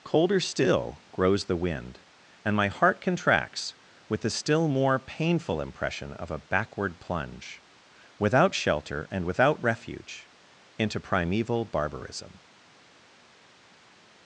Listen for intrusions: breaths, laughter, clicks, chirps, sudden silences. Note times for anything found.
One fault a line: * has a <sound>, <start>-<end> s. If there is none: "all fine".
all fine